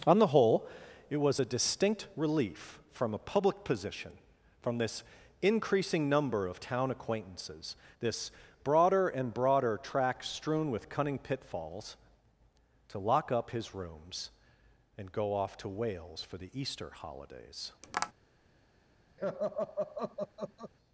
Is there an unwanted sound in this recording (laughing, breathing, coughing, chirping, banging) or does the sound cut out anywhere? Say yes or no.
yes